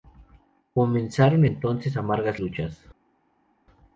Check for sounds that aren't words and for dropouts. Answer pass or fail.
pass